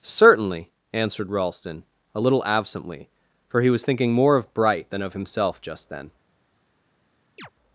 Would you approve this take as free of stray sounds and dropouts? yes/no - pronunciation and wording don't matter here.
no